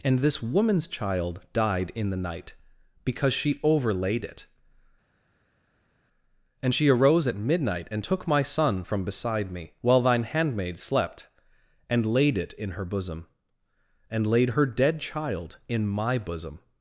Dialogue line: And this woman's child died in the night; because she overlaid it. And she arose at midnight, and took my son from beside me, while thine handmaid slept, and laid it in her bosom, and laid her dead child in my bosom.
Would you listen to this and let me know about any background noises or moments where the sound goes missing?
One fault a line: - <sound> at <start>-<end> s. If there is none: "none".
none